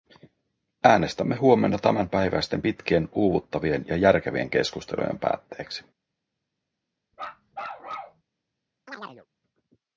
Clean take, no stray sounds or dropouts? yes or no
no